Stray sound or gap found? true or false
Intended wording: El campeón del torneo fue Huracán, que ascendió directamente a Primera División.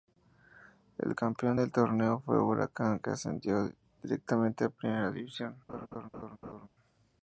true